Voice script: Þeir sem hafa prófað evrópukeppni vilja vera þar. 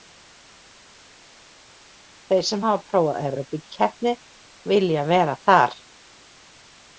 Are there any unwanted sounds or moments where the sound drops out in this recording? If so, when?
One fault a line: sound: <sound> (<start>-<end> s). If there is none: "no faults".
no faults